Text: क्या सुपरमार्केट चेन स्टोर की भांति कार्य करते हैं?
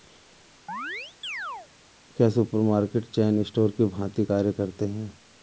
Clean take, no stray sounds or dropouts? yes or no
no